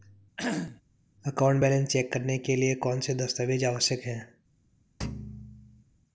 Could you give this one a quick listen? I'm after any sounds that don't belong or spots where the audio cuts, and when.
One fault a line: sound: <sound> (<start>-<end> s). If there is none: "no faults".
sound: cough (0.4-0.8 s)
sound: thud (5.0-5.8 s)